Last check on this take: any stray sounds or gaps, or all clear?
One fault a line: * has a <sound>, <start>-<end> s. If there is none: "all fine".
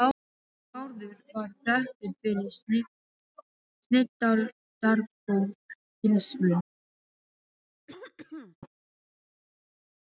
* has a throat clearing, 7.9-8.6 s